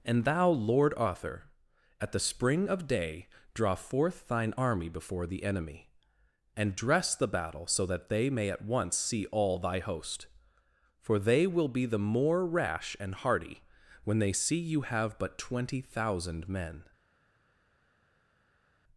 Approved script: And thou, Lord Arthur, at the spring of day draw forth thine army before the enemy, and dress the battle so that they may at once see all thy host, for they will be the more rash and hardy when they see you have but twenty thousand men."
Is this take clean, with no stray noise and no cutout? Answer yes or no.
yes